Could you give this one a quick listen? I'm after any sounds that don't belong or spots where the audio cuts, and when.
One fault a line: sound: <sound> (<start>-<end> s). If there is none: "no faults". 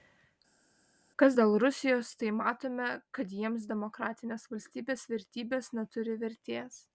no faults